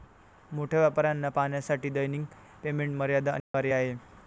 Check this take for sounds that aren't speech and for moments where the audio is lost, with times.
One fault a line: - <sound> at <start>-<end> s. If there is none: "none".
- dropout at 3.4-3.5 s